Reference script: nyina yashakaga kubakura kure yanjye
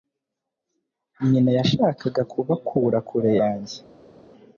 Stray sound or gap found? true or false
false